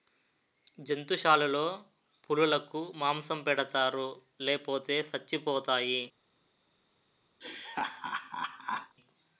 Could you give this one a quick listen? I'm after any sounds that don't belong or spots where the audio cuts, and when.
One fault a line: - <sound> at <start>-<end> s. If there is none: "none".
- laugh at 7.4-9.0 s